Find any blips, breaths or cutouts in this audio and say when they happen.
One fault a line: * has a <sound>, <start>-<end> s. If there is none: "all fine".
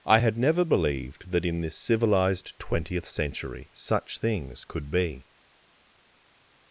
all fine